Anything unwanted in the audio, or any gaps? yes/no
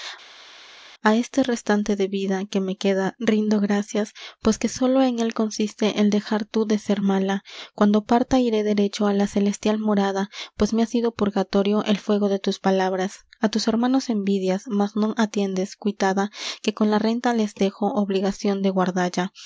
no